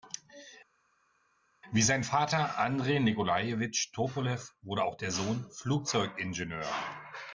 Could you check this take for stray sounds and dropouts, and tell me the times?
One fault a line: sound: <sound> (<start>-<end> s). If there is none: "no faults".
no faults